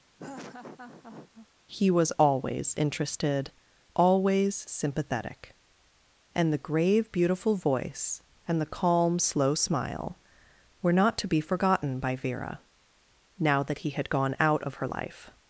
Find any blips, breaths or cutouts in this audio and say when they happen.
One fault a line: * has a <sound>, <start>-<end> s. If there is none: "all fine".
* has a laugh, 0.2-1.5 s